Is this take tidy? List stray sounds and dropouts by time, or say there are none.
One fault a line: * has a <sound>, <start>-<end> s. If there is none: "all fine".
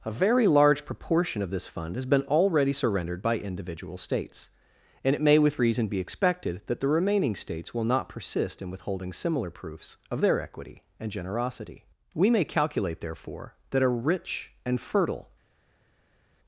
all fine